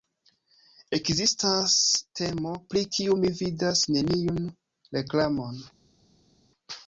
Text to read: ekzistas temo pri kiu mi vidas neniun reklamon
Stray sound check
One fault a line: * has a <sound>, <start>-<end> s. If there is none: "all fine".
all fine